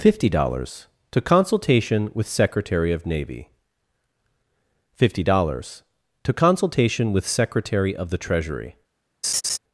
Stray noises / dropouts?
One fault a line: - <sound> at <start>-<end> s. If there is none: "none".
- laugh at 9.2-9.6 s